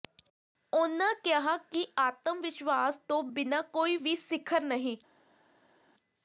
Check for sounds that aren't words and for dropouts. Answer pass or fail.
pass